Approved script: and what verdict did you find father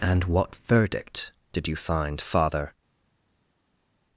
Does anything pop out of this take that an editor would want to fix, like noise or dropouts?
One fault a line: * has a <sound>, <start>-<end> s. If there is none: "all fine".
all fine